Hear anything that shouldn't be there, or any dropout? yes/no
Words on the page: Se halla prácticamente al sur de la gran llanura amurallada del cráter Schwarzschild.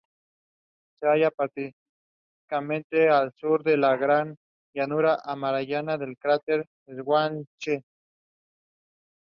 no